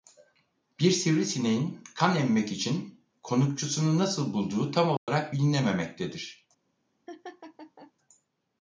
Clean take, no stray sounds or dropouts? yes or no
no